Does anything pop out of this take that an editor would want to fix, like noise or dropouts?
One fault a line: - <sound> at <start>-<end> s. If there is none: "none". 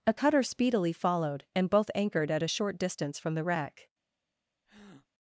- breath at 4.7-5.1 s